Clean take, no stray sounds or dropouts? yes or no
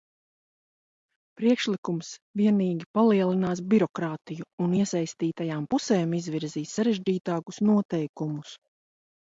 yes